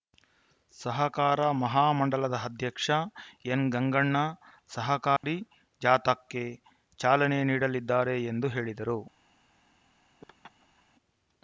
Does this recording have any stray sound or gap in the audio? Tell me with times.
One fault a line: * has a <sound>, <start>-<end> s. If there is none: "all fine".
* has a dropout, 5.2-5.2 s
* has a laugh, 10.2-10.8 s